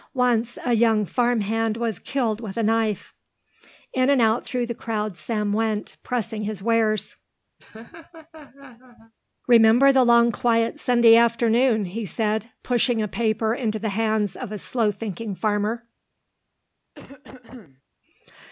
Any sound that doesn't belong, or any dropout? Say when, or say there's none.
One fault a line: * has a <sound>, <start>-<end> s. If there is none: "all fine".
* has a laugh, 7.6-9.1 s
* has a cough, 16.9-17.8 s